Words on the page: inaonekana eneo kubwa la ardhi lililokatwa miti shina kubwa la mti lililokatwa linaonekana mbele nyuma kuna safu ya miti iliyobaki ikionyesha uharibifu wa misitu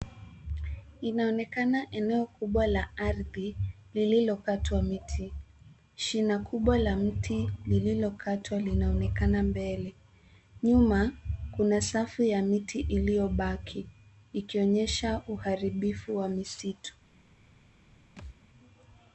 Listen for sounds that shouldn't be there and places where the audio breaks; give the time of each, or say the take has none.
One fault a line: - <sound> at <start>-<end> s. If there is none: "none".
- thud at 18.2-18.4 s